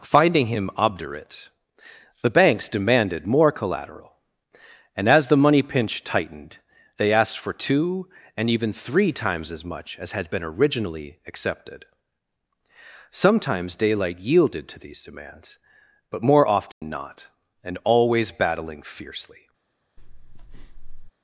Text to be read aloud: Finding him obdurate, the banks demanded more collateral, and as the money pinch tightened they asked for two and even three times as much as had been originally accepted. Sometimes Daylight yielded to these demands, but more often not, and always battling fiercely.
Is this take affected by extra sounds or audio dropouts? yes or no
yes